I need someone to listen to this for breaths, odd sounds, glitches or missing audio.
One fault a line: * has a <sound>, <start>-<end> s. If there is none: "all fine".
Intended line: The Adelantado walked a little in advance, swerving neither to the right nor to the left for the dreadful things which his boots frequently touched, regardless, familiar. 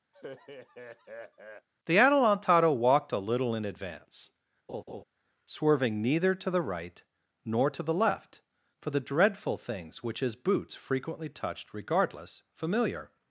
* has a laugh, 0.1-1.7 s
* has a laugh, 4.7-5.0 s